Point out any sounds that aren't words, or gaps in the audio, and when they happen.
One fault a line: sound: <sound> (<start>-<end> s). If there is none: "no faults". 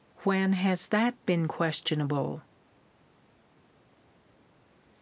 no faults